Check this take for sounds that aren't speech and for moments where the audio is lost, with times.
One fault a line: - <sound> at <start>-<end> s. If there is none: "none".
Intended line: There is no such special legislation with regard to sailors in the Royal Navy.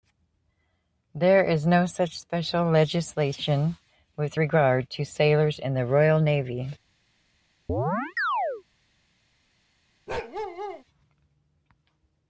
- chirp at 7.7-8.6 s
- bark at 10.1-10.8 s